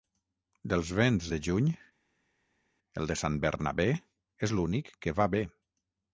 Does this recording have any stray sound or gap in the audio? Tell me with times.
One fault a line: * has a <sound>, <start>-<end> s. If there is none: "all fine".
all fine